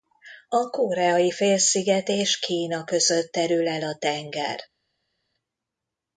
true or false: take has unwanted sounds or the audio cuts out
false